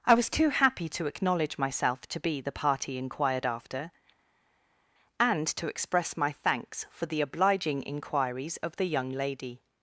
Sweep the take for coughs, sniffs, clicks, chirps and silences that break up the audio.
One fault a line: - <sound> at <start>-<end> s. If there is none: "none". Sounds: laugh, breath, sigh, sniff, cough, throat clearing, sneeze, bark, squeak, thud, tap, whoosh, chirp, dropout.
none